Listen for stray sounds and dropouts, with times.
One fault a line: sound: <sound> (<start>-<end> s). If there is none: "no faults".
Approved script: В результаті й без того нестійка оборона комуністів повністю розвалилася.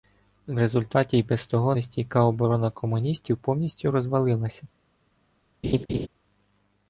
sound: laugh (5.6-6.1 s)